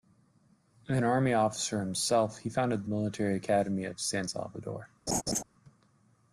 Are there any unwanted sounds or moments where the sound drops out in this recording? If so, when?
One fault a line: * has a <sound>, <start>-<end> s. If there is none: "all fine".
* has a laugh, 5.1-5.4 s